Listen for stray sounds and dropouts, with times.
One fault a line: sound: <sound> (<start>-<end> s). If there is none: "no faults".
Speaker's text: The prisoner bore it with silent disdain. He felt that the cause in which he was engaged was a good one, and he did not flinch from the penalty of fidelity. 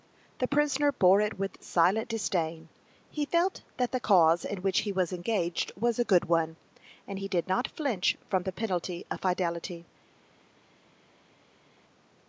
no faults